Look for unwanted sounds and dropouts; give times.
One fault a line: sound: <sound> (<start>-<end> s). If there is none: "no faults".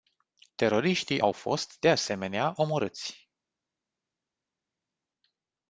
no faults